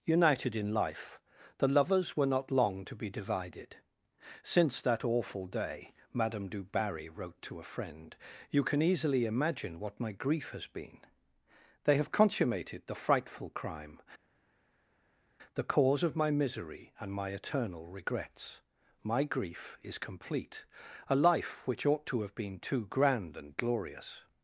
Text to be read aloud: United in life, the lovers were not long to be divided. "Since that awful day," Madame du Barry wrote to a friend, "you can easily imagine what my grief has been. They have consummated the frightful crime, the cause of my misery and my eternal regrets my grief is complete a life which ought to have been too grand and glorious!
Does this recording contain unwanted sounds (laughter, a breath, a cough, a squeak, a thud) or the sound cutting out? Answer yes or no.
no